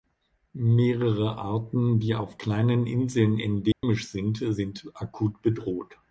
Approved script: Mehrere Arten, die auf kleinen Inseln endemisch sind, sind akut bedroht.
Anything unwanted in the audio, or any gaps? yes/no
yes